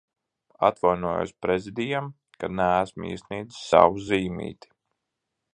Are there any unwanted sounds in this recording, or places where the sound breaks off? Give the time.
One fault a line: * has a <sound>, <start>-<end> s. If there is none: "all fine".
all fine